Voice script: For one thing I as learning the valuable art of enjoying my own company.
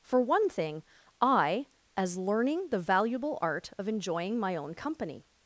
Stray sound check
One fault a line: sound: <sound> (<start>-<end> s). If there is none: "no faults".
no faults